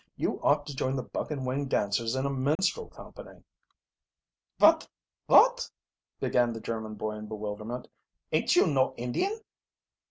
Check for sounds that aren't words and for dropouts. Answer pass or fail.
fail